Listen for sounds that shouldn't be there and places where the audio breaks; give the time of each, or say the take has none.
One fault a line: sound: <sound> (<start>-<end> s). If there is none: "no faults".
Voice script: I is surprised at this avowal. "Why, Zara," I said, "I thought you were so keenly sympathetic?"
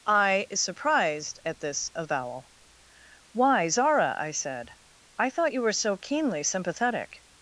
no faults